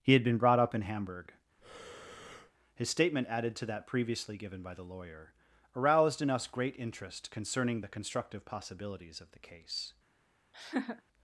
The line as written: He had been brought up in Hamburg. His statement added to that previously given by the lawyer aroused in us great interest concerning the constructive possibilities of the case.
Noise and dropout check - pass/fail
fail